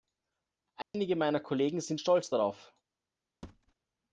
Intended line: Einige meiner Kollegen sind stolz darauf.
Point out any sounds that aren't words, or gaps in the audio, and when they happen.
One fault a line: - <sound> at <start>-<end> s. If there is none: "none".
- dropout at 0.8-0.9 s
- thud at 3.4-3.7 s